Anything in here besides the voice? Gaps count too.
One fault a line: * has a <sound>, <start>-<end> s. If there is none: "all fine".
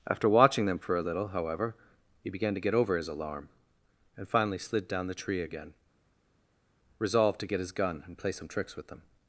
all fine